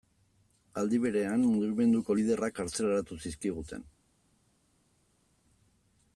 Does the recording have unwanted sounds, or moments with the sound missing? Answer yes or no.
no